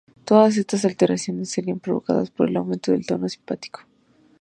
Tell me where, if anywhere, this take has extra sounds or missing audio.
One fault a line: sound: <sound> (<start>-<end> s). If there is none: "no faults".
no faults